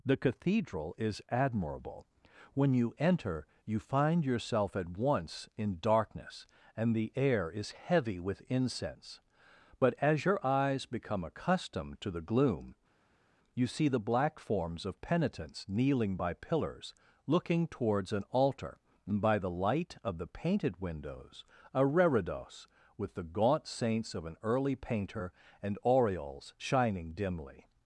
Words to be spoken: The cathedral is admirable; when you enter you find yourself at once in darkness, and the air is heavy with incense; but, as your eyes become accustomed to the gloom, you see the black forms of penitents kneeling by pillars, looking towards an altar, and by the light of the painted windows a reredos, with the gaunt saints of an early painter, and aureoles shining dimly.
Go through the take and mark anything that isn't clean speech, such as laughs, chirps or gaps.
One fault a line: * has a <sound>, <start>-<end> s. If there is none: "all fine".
all fine